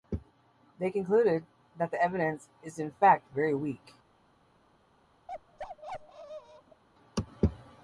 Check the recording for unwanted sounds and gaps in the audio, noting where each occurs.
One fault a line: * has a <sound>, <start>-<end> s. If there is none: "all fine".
* has a bark, 5.3-6.8 s